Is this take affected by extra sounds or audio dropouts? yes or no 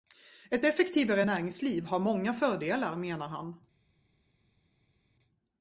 no